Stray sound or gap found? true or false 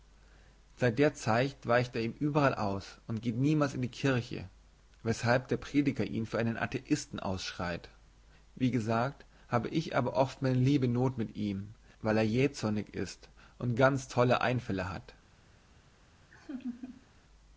true